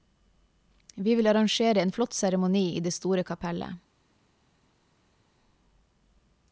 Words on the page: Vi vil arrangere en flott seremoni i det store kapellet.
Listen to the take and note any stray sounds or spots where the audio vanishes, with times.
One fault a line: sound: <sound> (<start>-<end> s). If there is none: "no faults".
no faults